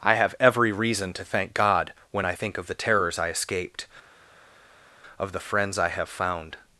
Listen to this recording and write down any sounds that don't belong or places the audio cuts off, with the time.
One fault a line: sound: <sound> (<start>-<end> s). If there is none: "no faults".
no faults